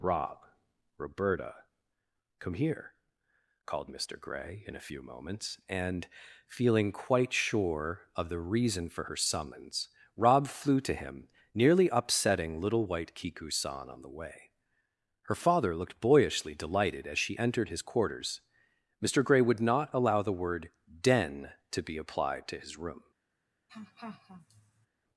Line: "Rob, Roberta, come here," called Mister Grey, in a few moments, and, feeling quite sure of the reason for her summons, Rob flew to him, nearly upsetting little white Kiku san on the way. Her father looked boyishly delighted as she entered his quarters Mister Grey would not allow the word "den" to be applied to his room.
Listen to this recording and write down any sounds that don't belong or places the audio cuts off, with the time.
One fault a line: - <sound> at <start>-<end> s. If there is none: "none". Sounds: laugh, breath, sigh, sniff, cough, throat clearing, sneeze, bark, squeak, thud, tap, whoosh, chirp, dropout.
- laugh at 23.7-24.9 s